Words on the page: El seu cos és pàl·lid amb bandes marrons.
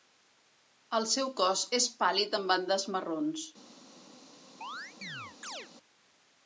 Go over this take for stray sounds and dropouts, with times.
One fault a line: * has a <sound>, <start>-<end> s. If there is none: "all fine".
* has a chirp, 4.6-5.7 s